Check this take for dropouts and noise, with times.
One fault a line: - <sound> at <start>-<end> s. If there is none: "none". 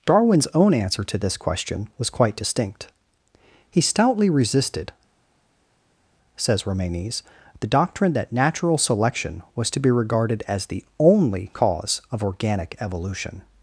none